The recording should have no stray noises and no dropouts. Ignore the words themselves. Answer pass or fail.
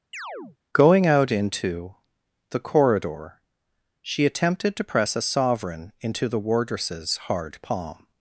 fail